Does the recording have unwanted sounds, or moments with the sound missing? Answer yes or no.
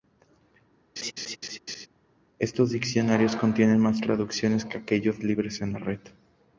yes